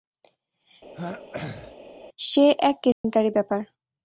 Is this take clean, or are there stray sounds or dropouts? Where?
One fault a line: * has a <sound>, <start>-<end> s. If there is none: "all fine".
* has a throat clearing, 0.9-1.8 s
* has a dropout, 2.9-3.0 s